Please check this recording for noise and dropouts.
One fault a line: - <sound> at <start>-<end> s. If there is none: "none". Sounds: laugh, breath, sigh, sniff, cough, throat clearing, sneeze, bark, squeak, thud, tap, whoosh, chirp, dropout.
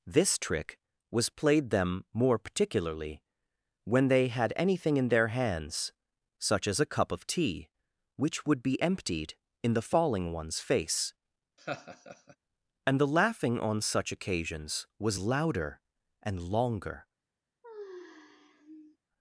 - laugh at 11.6-12.4 s
- sigh at 17.6-19.0 s